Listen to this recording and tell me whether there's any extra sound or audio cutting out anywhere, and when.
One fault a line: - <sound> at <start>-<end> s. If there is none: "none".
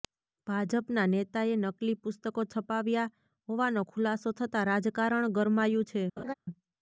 - laugh at 6.2-6.3 s